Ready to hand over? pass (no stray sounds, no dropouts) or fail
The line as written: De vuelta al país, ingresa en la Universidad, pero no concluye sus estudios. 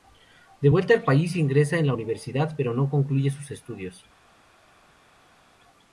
pass